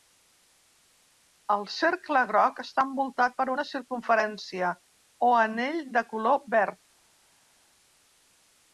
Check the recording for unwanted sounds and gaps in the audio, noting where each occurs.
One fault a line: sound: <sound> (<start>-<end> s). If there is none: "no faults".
no faults